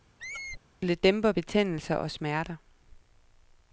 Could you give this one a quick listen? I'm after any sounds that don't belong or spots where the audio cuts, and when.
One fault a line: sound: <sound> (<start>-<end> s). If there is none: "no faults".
sound: squeak (0.2-0.6 s)